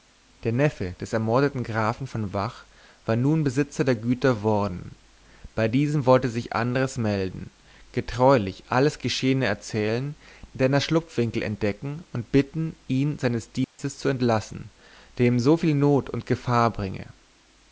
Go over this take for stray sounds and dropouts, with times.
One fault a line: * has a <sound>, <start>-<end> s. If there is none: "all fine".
* has a dropout, 13.6-13.8 s